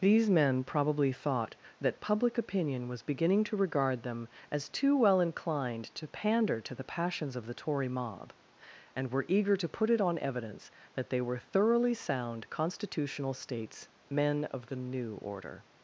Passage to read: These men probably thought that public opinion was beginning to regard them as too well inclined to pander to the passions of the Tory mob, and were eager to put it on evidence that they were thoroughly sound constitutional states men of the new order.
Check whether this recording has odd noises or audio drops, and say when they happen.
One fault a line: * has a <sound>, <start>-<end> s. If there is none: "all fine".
all fine